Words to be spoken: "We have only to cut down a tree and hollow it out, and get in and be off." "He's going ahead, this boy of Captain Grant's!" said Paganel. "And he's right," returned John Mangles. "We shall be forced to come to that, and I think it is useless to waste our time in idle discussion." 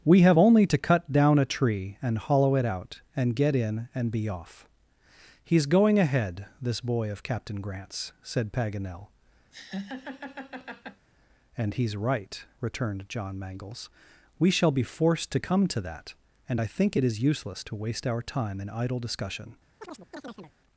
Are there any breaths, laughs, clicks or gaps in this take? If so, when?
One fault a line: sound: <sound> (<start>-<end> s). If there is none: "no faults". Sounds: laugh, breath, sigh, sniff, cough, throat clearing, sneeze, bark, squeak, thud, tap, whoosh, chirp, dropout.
sound: laugh (9.5-11.1 s)
sound: chirp (19.8-20.5 s)